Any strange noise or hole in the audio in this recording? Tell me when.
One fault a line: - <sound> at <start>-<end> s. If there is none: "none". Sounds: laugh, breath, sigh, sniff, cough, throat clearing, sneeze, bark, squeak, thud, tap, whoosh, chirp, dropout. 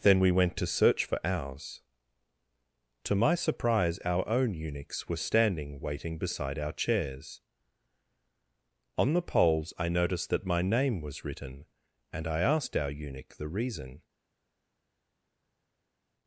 none